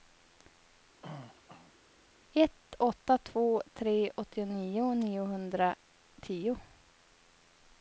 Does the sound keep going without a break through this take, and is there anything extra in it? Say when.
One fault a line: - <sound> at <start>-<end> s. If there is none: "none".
- throat clearing at 1.0-1.8 s